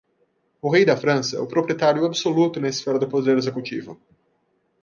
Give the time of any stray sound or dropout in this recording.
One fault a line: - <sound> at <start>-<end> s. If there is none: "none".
none